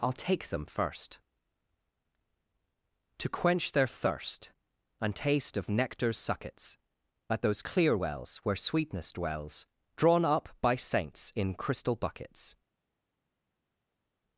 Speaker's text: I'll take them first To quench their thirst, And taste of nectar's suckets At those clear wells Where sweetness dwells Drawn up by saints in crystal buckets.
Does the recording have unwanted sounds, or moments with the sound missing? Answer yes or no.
no